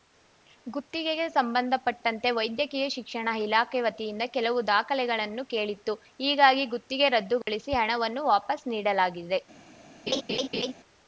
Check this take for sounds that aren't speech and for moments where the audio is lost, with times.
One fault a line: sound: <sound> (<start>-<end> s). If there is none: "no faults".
sound: dropout (7.4-7.5 s)
sound: laugh (10.1-10.7 s)